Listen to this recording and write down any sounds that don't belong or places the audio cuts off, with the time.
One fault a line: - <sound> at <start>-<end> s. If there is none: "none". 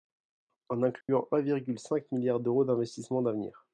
- dropout at 1.0-1.1 s